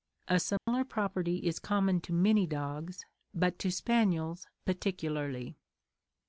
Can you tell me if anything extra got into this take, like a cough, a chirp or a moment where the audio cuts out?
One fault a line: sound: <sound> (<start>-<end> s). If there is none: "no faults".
sound: dropout (0.6-0.7 s)